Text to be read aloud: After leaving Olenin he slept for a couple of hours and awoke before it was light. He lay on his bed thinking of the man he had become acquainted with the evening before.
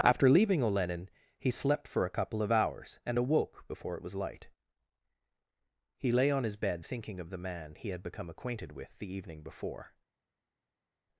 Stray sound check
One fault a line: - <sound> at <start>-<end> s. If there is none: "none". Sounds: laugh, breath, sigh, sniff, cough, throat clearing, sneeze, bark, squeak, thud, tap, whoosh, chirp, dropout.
none